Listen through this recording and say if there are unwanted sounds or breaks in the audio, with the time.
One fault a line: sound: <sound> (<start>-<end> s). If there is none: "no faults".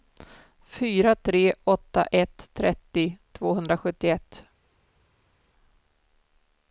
no faults